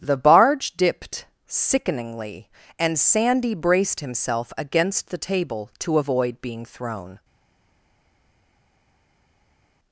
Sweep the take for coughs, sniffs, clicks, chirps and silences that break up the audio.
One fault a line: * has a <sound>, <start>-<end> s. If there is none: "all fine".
all fine